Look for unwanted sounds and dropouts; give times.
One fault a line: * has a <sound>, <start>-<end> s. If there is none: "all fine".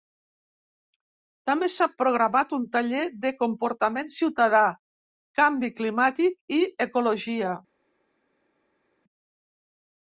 all fine